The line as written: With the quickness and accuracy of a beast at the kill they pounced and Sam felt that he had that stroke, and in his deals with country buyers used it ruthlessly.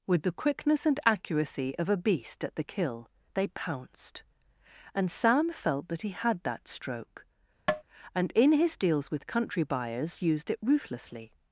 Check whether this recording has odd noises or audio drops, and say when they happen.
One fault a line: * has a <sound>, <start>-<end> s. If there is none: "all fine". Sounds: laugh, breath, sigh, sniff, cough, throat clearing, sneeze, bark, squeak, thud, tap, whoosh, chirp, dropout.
* has a tap, 7.7-7.8 s